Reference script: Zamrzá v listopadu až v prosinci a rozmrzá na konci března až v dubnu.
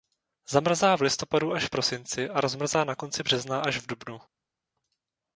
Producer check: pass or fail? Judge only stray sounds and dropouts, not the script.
pass